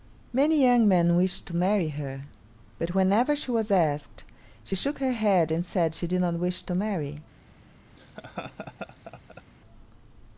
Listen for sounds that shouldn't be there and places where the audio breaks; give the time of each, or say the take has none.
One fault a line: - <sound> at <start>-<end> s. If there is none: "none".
- laugh at 8.0-9.4 s